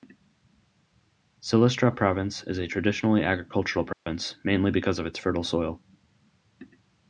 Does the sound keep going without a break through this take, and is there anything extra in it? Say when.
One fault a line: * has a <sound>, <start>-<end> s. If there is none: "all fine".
* has a dropout, 3.9-4.1 s